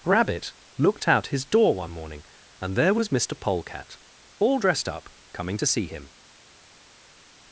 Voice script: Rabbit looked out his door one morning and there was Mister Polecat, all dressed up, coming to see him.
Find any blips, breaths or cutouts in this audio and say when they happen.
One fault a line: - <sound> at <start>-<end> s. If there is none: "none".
none